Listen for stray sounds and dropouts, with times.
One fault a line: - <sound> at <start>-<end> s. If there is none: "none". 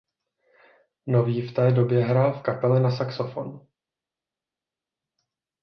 none